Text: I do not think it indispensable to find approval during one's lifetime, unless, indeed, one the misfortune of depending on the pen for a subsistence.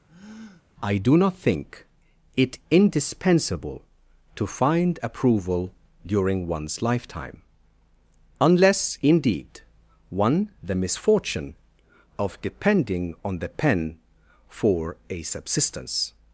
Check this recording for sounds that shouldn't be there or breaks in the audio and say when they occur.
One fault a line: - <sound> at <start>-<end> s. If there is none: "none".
- breath at 0.1-0.7 s